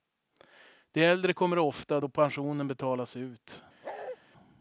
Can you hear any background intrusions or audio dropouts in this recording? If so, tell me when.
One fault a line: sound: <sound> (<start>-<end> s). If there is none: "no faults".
sound: bark (3.8-4.2 s)